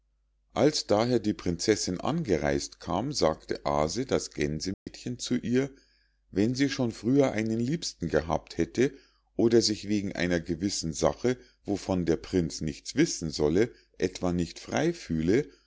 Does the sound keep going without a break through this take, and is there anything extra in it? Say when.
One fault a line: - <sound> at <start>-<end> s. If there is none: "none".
- dropout at 4.7-4.9 s